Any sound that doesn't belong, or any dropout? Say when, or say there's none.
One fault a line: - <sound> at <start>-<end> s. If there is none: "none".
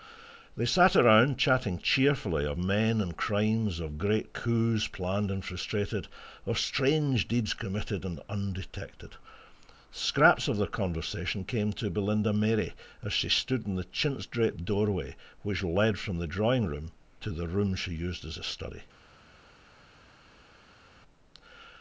none